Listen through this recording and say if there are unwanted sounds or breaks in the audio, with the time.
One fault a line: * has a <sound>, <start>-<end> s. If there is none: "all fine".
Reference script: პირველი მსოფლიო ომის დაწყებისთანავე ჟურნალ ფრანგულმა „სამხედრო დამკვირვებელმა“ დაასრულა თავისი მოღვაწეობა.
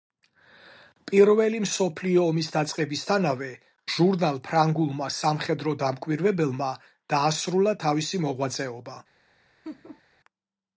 * has a laugh, 9.6-10.0 s